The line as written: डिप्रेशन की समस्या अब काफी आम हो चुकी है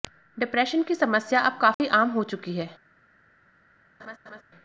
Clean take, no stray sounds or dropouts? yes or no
no